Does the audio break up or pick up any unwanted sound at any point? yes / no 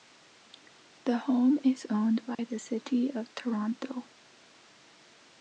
yes